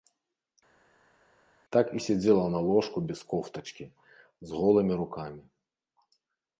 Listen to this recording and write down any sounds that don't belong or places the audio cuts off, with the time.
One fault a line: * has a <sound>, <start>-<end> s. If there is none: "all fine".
all fine